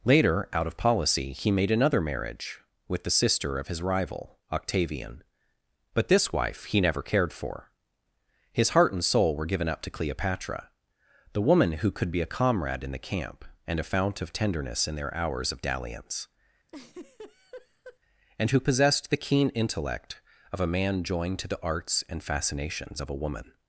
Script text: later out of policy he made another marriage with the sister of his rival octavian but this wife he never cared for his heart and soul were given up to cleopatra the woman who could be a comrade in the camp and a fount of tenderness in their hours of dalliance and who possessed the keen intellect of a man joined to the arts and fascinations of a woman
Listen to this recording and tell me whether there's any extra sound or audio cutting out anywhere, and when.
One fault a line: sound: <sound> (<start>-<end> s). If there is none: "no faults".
sound: laugh (16.7-18.0 s)